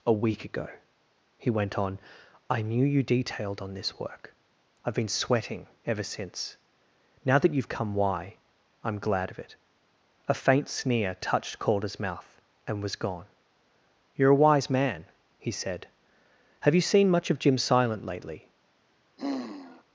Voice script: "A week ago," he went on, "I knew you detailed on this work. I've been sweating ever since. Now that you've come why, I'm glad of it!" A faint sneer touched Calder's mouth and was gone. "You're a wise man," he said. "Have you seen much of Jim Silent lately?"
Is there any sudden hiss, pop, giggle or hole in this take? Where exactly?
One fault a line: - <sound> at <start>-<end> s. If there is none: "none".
- sigh at 19.2-19.8 s